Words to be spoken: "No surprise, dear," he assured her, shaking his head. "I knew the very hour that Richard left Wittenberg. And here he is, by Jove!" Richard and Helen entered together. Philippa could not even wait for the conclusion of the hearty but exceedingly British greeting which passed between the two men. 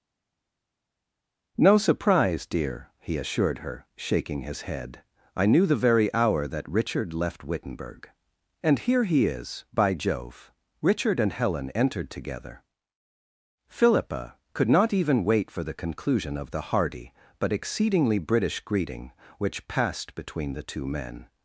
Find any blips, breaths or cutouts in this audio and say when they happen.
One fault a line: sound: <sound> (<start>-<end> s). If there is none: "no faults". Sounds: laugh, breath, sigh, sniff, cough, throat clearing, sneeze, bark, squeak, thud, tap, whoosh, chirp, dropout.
no faults